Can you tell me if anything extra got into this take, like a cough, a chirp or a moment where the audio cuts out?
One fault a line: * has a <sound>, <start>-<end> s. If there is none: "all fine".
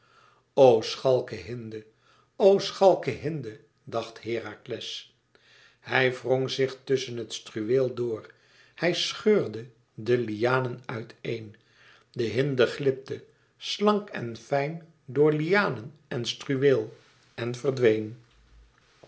all fine